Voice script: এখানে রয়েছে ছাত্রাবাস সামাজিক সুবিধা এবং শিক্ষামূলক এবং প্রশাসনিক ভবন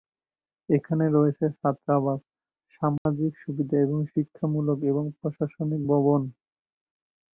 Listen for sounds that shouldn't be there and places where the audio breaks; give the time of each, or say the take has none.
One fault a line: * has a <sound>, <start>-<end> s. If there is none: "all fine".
* has a dropout, 3.0-3.1 s